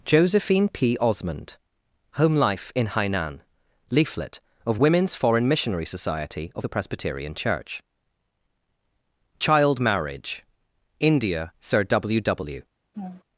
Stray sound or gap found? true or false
true